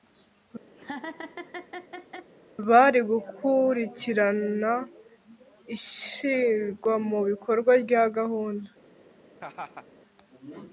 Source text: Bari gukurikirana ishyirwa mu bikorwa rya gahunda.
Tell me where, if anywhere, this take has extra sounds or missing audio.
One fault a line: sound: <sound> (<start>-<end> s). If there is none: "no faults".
sound: laugh (0.7-2.3 s)
sound: laugh (9.4-9.9 s)